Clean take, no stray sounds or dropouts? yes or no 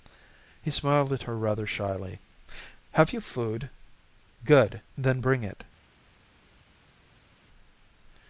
yes